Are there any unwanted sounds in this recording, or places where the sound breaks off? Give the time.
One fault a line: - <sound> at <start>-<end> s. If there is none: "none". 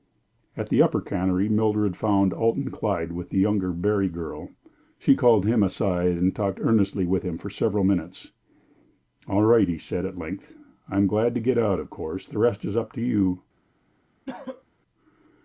- cough at 14.3-14.6 s